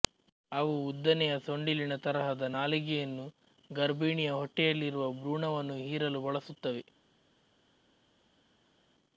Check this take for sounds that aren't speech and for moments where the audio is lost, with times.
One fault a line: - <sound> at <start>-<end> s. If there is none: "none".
none